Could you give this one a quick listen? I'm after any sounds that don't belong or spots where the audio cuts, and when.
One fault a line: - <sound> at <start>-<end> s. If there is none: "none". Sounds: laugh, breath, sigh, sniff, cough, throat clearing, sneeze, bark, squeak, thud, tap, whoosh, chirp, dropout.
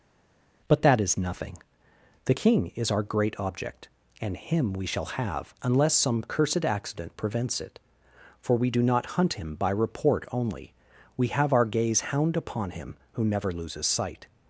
none